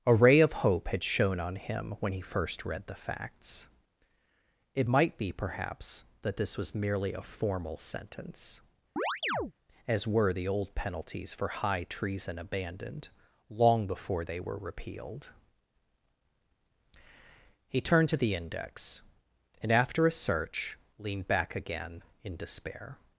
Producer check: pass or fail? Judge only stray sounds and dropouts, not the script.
fail